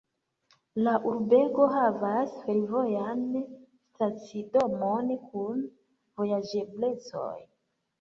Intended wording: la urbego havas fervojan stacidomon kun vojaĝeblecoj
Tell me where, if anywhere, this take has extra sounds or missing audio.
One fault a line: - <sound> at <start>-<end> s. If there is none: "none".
none